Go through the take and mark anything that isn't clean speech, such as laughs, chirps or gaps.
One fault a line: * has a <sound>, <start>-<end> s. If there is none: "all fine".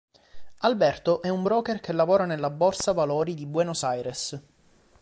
all fine